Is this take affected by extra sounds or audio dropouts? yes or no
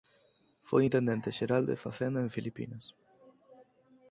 no